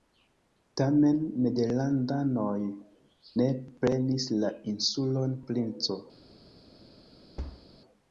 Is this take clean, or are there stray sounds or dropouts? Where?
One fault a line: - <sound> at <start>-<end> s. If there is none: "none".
- thud at 7.4-7.7 s